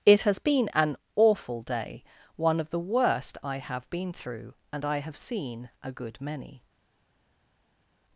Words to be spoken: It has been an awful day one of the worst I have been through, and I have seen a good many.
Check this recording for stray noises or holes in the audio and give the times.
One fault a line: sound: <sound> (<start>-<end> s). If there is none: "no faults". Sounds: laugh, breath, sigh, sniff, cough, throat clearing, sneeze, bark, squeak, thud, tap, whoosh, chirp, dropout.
no faults